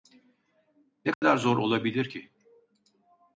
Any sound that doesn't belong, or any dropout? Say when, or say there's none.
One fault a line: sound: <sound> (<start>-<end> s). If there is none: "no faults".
sound: dropout (1.1-1.2 s)